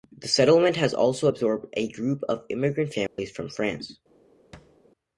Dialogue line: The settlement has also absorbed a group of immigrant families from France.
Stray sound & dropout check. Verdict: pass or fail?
fail